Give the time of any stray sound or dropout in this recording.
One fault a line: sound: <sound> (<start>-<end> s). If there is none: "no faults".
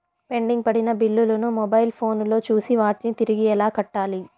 no faults